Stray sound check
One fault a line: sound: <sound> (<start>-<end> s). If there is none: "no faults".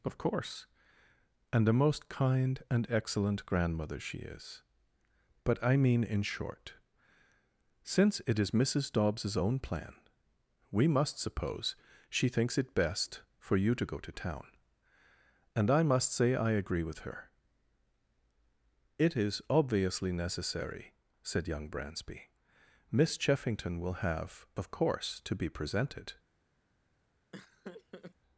sound: laugh (27.3-28.1 s)